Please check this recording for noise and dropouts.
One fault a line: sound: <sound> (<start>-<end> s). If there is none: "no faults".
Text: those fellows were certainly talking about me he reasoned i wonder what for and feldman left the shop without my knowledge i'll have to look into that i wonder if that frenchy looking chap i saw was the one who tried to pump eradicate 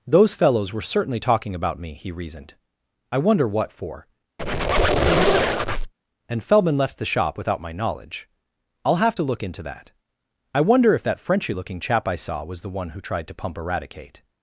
sound: squeak (4.4-5.9 s)